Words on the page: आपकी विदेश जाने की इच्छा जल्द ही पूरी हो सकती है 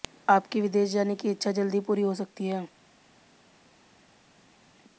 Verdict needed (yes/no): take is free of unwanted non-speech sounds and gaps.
yes